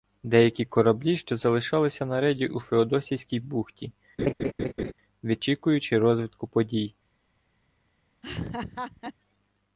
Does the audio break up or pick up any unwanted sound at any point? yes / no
yes